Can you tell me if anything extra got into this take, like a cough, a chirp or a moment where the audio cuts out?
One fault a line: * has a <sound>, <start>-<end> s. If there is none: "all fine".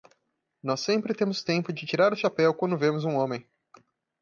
all fine